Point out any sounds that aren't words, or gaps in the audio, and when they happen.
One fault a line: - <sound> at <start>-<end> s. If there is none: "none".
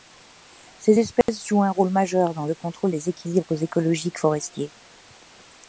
- dropout at 1.2-1.3 s